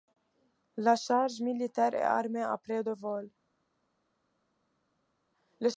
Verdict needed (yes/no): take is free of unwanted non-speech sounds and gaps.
yes